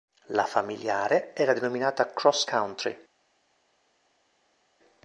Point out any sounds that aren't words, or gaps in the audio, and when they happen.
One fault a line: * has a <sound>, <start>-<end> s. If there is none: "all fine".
all fine